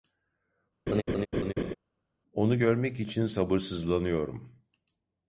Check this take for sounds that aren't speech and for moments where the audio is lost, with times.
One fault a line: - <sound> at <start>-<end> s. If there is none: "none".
- laugh at 0.9-1.7 s